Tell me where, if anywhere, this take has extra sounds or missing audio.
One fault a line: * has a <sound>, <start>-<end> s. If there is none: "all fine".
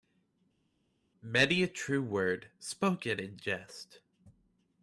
all fine